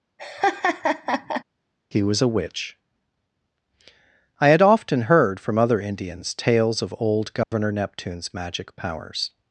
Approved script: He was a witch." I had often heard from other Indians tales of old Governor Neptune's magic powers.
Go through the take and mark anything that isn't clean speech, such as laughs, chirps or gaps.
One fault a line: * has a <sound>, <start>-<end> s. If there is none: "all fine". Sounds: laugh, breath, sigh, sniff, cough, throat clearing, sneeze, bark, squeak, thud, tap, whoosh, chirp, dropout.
* has a laugh, 0.2-1.4 s
* has a dropout, 7.4-7.5 s